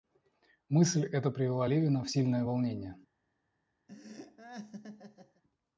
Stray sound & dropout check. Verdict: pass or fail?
fail